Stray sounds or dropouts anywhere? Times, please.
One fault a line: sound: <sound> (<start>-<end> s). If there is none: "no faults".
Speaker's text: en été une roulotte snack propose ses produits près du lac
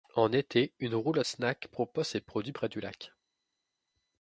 no faults